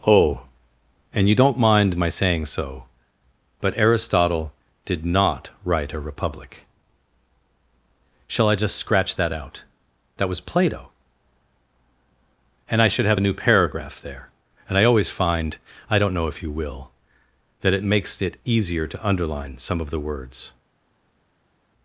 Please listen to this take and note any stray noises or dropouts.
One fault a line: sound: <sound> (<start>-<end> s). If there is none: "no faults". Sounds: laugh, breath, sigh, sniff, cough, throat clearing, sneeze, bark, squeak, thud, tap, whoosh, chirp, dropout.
no faults